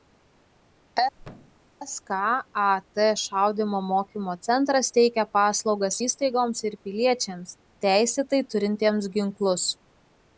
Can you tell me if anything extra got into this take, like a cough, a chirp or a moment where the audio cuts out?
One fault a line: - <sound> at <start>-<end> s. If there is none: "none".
- thud at 1.2-1.7 s